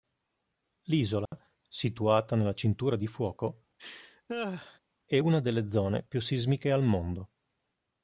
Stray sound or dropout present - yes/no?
yes